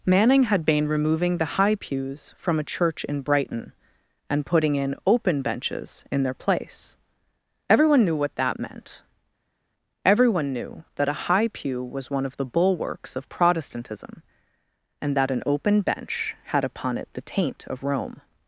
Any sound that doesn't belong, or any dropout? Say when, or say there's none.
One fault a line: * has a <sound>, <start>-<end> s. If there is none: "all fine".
all fine